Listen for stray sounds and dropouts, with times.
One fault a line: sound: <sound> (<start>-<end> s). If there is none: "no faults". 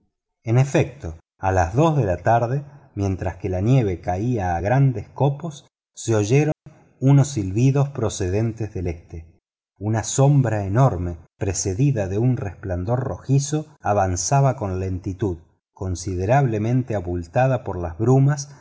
sound: dropout (6.5-6.7 s)